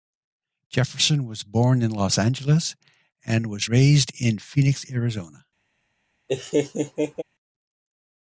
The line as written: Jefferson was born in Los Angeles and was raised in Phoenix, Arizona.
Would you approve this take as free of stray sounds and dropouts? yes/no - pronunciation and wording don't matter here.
no